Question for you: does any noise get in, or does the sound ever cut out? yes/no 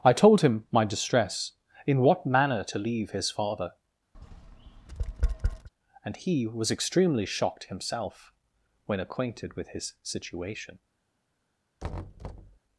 yes